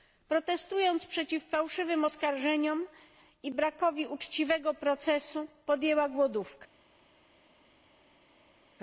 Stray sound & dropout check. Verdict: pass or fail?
pass